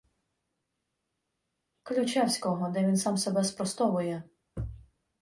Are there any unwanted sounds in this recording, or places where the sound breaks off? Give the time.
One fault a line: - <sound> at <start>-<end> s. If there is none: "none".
none